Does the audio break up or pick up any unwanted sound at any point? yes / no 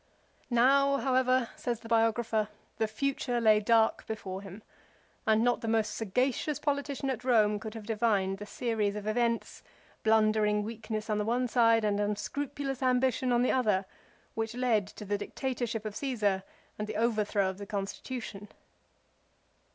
no